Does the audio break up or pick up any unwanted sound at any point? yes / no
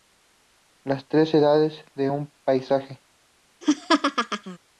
yes